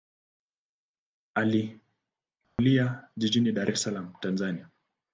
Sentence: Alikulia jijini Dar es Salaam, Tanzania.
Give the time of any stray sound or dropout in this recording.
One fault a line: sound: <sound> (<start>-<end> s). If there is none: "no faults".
sound: dropout (2.4-2.6 s)